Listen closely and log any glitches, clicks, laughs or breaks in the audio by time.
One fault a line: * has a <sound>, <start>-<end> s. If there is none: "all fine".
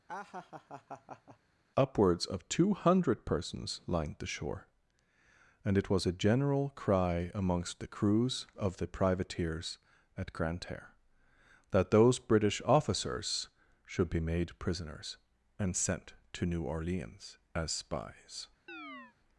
* has a laugh, 0.1-1.4 s
* has a chirp, 18.7-19.2 s